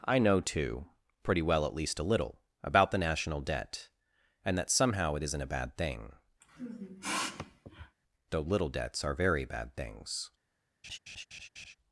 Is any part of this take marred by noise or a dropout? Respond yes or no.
yes